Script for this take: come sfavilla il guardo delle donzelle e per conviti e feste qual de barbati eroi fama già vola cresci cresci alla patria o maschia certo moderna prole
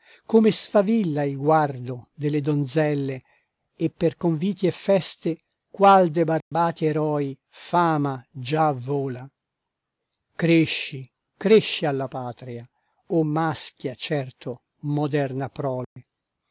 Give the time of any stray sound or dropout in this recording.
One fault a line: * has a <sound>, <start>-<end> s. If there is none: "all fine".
* has a dropout, 6.4-6.5 s
* has a dropout, 15.8-16.0 s